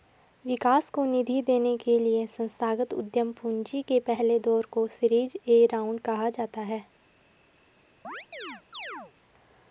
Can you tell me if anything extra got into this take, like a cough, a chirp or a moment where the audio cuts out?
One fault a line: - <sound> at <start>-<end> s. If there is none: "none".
- chirp at 8.0-9.1 s